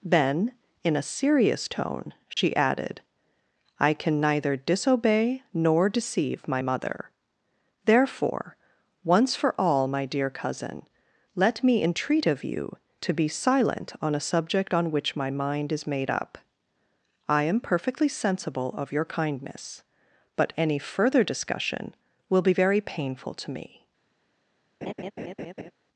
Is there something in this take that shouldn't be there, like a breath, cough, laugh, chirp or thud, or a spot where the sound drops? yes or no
yes